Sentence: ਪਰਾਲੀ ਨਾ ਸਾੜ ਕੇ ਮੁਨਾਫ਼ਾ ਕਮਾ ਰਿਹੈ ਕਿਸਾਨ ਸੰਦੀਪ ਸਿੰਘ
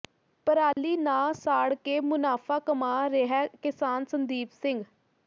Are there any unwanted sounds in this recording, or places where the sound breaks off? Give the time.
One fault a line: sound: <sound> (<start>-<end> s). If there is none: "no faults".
sound: dropout (0.7-0.8 s)